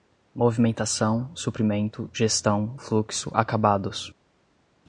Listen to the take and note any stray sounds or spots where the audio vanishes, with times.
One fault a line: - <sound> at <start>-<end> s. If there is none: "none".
none